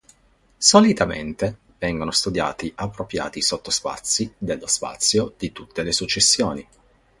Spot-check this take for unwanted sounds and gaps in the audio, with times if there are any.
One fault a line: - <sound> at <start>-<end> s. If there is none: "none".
none